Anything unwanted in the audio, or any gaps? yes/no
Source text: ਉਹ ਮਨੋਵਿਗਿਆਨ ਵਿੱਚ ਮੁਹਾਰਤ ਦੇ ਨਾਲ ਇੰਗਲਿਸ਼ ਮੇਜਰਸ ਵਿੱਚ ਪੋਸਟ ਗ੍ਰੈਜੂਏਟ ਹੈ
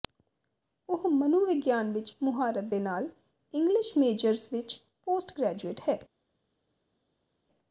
no